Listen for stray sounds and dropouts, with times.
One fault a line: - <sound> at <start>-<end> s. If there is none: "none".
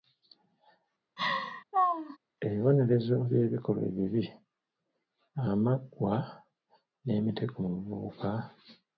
- laugh at 1.2-2.2 s